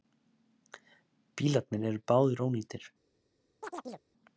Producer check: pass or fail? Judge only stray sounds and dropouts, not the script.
fail